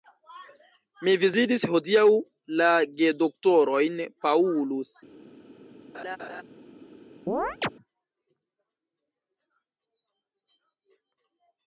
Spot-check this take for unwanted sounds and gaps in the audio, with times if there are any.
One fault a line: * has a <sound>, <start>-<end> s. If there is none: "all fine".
* has a laugh, 5.9-6.4 s
* has a chirp, 7.3-7.7 s